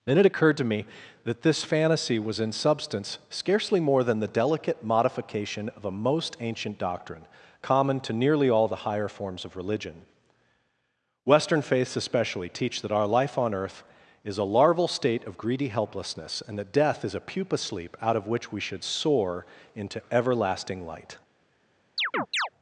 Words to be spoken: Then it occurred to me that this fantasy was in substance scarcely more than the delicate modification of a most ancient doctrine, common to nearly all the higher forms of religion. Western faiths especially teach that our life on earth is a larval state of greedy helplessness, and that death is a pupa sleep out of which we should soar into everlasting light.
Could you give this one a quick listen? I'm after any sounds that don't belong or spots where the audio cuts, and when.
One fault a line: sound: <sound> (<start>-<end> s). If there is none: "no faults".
sound: chirp (22.0-22.5 s)